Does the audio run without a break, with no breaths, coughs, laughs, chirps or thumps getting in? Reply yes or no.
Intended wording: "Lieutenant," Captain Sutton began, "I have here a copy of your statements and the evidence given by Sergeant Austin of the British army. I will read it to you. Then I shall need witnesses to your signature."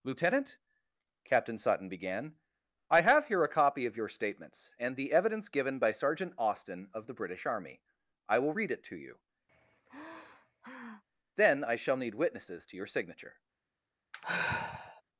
no